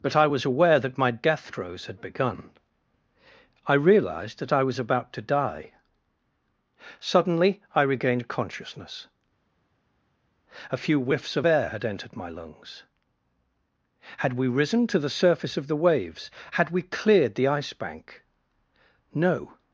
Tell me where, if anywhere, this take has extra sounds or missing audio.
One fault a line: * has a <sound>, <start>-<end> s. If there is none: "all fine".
all fine